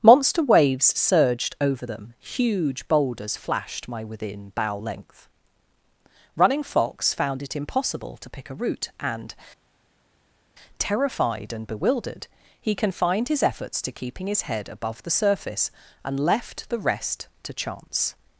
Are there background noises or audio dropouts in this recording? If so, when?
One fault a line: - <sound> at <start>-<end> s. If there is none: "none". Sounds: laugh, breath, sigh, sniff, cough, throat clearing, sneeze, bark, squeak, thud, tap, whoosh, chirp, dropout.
none